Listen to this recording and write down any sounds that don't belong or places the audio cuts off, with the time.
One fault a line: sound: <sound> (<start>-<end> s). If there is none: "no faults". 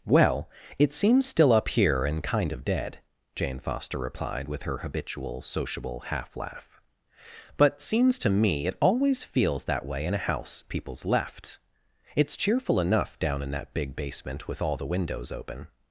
no faults